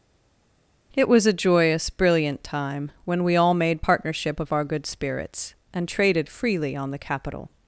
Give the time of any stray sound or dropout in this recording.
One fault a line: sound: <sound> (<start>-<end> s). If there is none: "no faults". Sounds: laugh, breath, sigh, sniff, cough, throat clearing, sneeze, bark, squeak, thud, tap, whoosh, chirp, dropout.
no faults